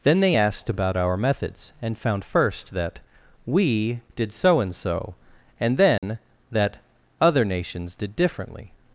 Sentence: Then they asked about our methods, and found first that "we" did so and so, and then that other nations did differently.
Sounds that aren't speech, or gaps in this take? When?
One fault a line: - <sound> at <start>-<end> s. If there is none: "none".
- dropout at 6.0-6.0 s